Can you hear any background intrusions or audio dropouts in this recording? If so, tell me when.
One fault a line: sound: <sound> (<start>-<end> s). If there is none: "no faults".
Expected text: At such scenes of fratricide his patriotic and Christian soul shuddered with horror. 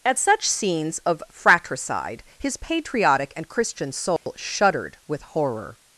sound: dropout (4.2-4.3 s)